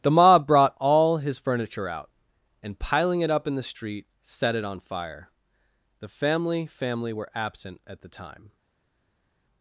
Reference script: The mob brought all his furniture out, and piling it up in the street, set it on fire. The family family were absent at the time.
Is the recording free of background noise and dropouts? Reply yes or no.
yes